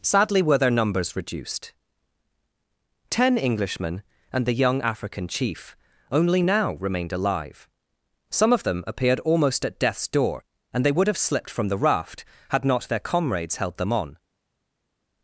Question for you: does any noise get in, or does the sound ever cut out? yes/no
no